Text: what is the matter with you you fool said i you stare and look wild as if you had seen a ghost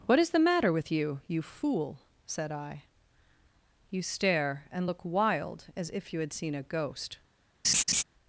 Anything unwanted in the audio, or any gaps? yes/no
yes